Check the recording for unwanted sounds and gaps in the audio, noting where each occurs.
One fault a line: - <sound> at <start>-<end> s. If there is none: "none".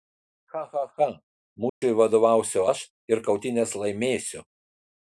- dropout at 1.7-1.8 s